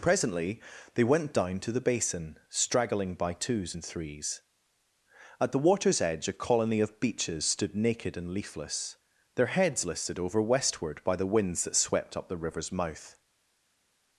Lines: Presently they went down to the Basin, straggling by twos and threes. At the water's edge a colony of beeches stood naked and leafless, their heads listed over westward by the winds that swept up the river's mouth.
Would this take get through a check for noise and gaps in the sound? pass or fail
pass